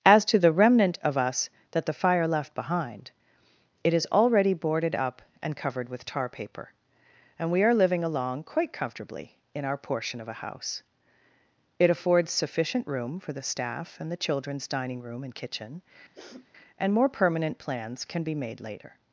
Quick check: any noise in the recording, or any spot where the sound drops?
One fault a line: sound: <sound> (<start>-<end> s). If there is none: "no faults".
sound: sniff (16.1-16.5 s)